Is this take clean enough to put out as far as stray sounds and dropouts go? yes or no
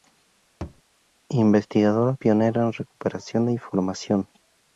no